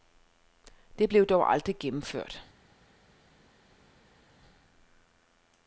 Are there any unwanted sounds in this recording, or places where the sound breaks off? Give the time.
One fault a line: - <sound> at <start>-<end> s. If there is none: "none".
none